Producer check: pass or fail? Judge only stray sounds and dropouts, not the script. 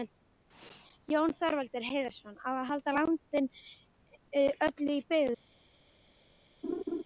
fail